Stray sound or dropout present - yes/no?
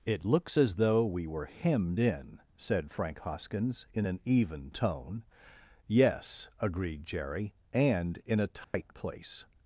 yes